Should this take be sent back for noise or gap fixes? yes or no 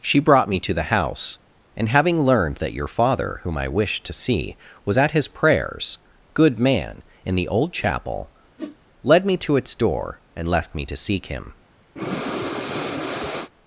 yes